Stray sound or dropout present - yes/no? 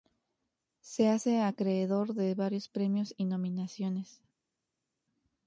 no